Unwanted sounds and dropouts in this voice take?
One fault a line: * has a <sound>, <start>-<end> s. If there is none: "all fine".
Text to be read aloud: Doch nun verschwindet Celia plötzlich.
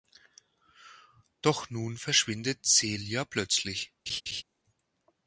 * has a laugh, 4.1-4.4 s